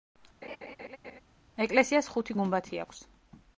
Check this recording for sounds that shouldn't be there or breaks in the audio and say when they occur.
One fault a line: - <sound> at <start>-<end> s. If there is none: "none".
- laugh at 0.4-1.2 s